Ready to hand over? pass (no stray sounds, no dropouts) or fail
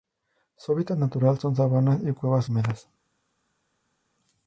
pass